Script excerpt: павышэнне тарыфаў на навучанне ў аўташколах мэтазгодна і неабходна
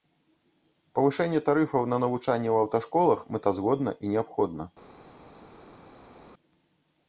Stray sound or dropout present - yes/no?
no